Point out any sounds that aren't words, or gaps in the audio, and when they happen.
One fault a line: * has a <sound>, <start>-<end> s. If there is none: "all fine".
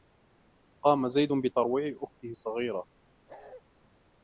* has a bark, 3.3-3.6 s